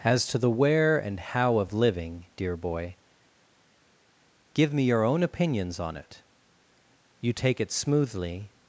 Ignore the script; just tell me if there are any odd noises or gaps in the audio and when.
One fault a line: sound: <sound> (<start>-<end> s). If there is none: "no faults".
no faults